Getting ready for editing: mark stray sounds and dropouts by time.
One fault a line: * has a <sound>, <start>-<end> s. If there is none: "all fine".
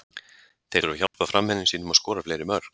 * has a dropout, 1.1-1.1 s